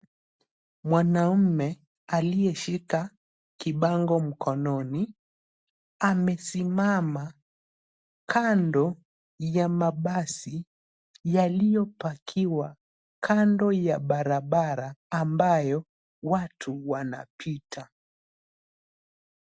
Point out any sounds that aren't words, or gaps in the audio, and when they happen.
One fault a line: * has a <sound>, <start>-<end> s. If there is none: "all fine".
all fine